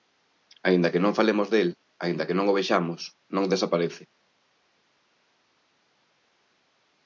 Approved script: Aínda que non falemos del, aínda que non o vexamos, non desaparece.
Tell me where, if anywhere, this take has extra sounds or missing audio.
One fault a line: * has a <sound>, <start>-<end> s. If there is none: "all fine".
all fine